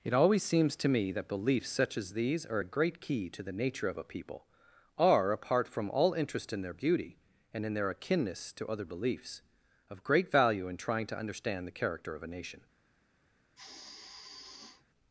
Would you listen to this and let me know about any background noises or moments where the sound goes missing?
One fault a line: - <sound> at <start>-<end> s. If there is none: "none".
- sigh at 13.6-14.8 s